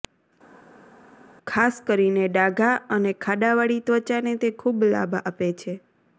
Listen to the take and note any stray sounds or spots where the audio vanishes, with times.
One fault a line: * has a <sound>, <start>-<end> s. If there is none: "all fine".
all fine